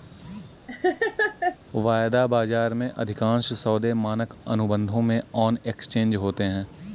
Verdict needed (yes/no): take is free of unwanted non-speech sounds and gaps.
no